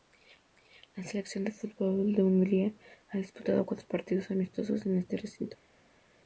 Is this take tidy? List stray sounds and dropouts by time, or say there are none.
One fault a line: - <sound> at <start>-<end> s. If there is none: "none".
none